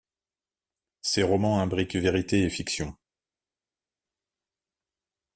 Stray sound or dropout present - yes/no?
no